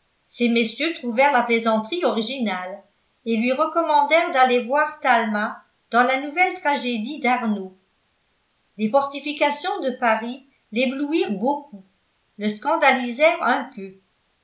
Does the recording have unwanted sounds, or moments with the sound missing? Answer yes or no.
no